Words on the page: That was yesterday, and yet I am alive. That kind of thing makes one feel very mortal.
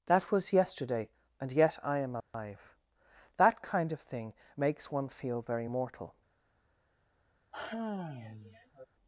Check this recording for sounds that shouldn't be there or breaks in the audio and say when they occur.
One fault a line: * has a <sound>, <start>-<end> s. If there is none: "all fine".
* has a dropout, 2.2-2.3 s
* has a sigh, 7.5-8.9 s